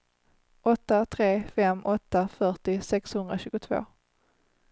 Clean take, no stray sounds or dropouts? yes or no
yes